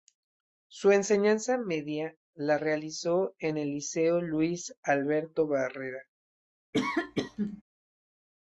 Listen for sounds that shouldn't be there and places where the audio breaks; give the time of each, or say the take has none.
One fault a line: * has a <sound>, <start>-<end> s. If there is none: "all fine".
* has a sneeze, 6.7-7.6 s